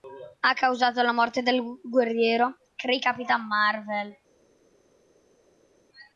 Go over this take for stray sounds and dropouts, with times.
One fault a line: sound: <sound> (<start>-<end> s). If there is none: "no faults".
no faults